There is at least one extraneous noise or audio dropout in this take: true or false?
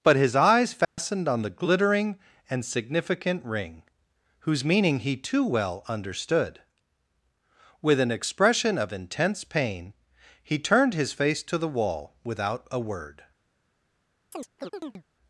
true